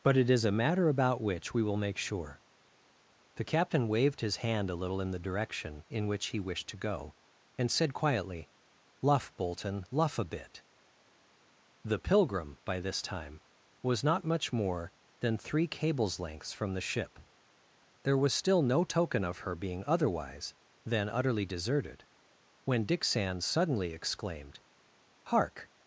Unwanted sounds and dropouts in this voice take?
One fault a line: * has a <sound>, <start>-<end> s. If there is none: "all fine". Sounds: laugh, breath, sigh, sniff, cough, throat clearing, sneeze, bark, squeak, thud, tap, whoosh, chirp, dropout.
all fine